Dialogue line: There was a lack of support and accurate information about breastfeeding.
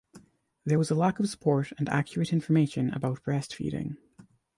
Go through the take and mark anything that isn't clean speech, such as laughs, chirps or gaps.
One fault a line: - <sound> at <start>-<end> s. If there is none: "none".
none